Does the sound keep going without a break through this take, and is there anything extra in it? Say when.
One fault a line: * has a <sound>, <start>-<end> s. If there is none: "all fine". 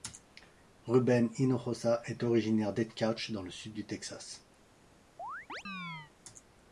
* has a chirp, 5.2-6.1 s